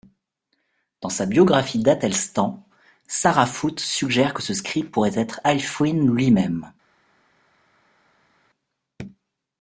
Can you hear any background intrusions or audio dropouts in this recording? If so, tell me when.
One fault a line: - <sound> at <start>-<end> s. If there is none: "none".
none